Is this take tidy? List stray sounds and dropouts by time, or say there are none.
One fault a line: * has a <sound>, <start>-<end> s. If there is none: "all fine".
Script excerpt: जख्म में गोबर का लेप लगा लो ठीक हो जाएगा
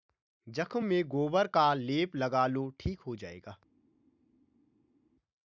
all fine